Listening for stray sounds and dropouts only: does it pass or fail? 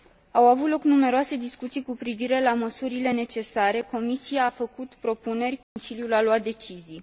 fail